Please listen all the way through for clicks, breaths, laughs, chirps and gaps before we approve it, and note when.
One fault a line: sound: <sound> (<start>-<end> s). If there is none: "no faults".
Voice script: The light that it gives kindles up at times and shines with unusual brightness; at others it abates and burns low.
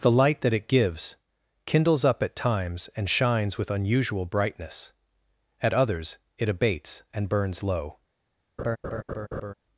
sound: laugh (8.6-9.5 s)